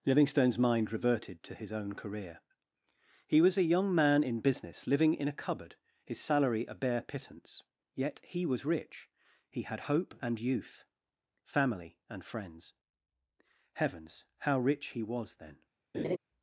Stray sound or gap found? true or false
true